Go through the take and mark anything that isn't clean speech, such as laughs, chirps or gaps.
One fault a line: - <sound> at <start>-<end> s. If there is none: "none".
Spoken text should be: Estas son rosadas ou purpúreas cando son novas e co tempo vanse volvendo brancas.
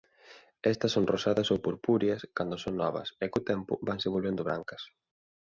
none